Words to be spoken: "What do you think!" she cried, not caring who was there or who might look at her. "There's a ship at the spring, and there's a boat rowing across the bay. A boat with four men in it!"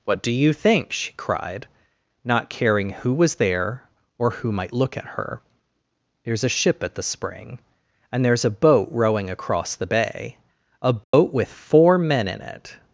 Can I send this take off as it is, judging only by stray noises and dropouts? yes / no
no